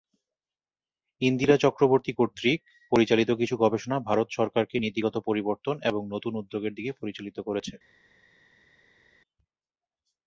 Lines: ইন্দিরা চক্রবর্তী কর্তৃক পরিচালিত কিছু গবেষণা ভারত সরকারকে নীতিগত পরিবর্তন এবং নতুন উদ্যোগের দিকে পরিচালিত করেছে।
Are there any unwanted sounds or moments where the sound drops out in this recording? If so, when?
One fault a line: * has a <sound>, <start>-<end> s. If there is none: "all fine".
all fine